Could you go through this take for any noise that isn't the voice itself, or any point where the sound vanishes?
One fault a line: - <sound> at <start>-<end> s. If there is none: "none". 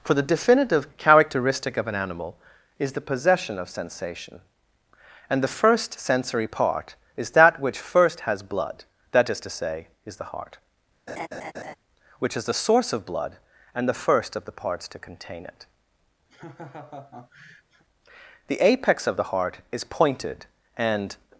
- laugh at 11.1-11.8 s
- laugh at 16.3-17.8 s